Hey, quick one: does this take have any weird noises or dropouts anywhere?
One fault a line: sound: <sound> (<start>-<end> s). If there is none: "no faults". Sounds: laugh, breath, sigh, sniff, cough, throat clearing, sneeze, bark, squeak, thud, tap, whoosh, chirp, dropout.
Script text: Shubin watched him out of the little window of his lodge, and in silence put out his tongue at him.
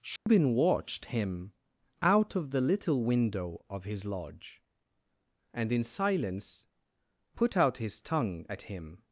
sound: dropout (0.2-0.3 s)